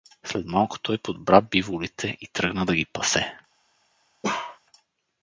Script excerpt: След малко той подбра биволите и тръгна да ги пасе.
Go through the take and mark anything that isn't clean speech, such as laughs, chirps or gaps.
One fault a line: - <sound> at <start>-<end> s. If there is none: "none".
- bark at 4.2-4.6 s